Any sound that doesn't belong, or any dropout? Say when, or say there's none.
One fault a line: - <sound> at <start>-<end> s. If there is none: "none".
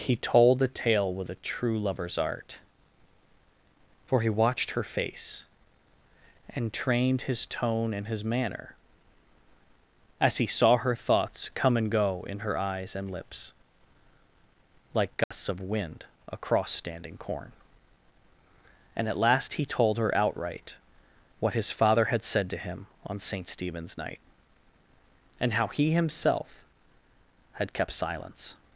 - dropout at 15.2-15.3 s